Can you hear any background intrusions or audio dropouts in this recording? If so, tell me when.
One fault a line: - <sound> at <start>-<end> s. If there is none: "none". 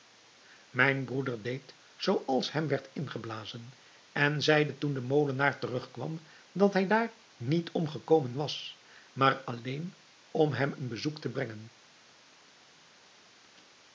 none